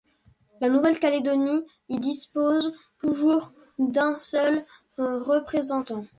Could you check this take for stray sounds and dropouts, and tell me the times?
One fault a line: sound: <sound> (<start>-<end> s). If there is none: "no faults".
no faults